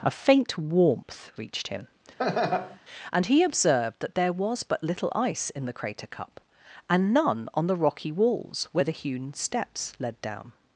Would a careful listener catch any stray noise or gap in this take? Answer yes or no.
yes